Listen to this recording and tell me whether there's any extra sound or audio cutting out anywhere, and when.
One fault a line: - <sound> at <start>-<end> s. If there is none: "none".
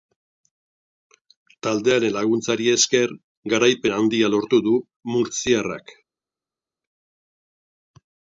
none